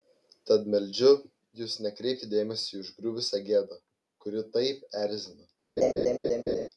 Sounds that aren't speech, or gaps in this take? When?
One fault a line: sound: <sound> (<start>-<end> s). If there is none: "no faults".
sound: laugh (5.8-6.7 s)